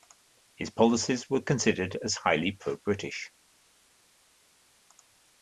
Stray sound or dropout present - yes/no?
no